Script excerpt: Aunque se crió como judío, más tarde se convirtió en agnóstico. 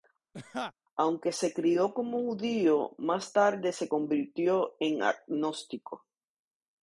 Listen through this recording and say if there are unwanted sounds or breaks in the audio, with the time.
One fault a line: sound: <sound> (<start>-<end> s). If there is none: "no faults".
sound: laugh (0.3-0.7 s)